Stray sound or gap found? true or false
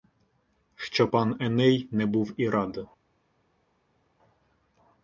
false